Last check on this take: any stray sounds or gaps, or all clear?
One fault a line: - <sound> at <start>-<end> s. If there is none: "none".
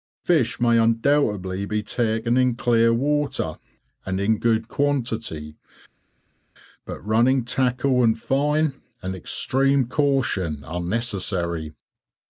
none